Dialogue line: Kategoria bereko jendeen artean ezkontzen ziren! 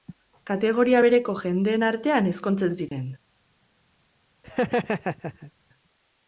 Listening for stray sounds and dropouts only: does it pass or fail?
fail